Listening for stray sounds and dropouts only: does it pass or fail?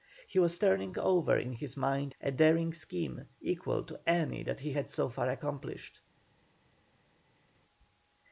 pass